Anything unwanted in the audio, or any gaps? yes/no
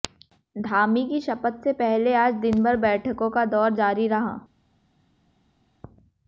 no